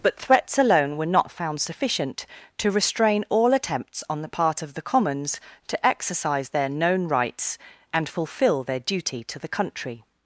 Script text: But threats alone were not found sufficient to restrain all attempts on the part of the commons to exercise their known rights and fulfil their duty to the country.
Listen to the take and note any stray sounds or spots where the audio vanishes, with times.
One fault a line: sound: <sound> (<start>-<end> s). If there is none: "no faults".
no faults